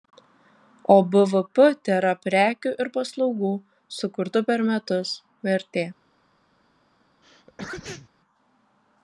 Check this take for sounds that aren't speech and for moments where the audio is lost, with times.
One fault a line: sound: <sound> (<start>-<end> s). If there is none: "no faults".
sound: sneeze (7.2-8.1 s)